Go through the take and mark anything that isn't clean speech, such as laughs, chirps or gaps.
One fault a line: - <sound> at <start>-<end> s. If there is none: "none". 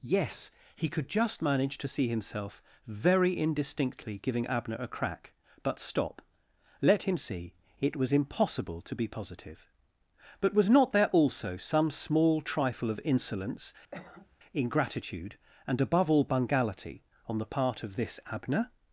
- cough at 13.9-14.4 s